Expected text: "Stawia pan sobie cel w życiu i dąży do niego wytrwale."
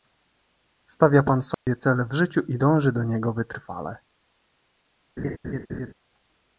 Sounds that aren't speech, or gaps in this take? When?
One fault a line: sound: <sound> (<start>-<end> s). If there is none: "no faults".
sound: dropout (1.5-1.7 s)
sound: laugh (5.2-5.9 s)